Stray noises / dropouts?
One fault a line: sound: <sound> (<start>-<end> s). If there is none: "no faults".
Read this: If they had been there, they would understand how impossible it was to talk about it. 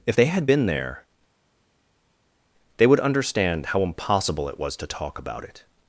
no faults